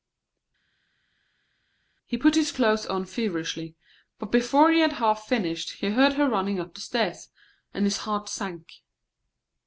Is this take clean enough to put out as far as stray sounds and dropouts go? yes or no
yes